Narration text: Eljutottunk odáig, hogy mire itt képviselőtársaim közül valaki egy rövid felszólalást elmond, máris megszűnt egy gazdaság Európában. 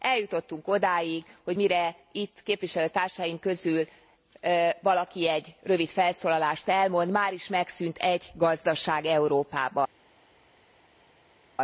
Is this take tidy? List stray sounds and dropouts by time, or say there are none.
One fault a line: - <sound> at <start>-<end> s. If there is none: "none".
none